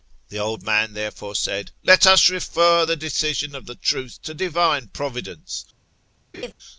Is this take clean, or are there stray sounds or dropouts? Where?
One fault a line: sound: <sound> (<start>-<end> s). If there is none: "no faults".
sound: laugh (6.3-6.5 s)